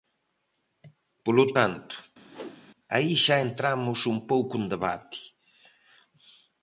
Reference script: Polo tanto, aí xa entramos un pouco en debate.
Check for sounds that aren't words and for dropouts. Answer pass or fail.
fail